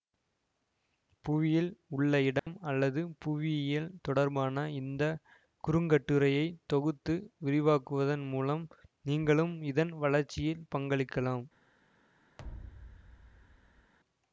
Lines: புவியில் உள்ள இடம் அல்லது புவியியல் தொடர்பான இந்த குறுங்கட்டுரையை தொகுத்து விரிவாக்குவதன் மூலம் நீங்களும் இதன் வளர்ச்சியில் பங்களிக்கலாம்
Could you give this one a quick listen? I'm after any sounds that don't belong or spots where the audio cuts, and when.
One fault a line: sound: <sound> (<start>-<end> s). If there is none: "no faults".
sound: dropout (2.4-2.5 s)
sound: thud (12.4-13.9 s)